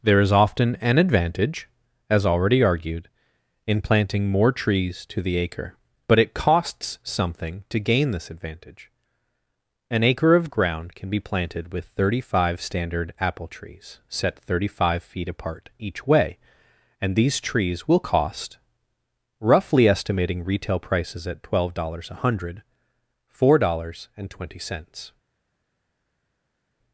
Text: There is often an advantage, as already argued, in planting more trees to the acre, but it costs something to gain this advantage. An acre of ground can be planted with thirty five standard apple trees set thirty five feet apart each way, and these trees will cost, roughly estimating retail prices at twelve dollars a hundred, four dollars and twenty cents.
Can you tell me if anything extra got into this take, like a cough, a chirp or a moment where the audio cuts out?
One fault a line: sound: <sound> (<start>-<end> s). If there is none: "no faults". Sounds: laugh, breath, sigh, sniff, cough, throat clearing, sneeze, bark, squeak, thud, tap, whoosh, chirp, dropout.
no faults